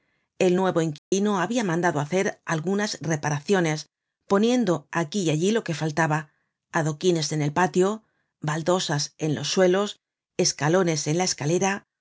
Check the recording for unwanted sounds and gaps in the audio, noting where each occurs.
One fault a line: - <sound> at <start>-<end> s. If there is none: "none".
- dropout at 1.0-1.1 s